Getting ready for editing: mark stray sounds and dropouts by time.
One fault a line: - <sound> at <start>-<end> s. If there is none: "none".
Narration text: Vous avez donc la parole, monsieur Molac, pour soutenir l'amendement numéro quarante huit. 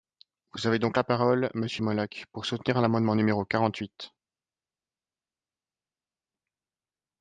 none